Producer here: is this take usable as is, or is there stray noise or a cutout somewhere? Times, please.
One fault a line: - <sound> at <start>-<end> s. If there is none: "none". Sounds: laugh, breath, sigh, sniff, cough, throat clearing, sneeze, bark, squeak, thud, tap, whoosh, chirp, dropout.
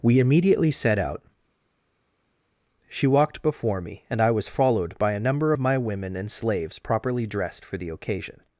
none